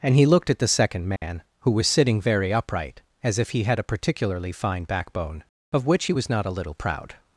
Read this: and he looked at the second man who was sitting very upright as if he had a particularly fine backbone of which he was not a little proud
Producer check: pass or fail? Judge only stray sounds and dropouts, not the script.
fail